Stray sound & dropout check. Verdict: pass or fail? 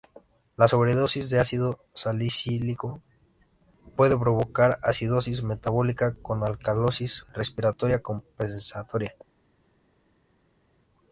pass